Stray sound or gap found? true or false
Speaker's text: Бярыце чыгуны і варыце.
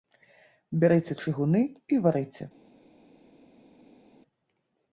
false